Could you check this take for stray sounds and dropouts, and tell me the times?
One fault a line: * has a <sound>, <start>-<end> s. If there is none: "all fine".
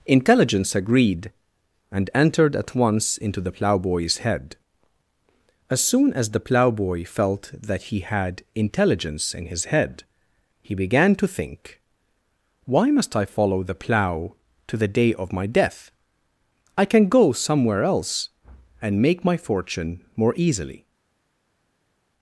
all fine